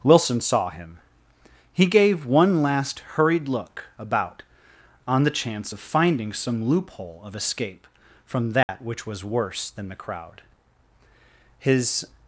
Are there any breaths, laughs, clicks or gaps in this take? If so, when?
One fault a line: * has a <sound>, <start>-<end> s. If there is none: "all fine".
* has a dropout, 8.6-8.7 s